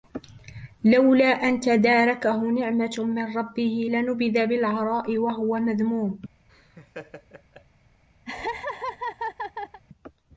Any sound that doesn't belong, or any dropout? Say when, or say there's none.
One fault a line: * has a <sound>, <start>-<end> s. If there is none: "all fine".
* has a laugh, 6.5-7.7 s
* has a laugh, 8.3-9.8 s